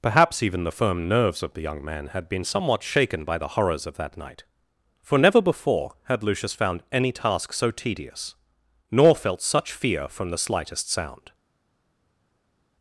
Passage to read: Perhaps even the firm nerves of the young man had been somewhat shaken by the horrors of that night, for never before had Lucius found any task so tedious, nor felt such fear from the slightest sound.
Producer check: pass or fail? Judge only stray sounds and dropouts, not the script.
pass